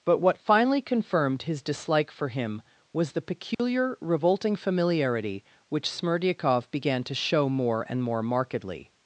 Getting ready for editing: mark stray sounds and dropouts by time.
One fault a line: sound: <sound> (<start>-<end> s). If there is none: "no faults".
sound: dropout (3.5-3.6 s)